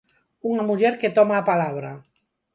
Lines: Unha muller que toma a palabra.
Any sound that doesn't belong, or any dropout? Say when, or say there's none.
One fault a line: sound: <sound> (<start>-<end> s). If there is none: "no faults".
no faults